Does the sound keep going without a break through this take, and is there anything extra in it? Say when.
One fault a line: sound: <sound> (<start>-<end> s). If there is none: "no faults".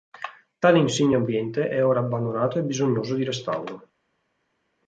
no faults